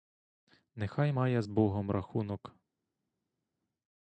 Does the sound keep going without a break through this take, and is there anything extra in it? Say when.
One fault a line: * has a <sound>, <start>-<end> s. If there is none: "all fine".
all fine